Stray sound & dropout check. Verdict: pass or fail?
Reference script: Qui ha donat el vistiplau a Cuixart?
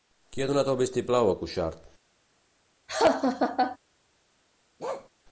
fail